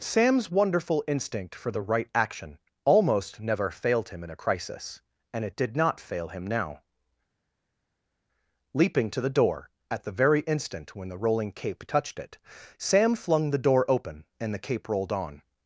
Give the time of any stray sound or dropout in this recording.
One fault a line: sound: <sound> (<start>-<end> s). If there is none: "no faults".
no faults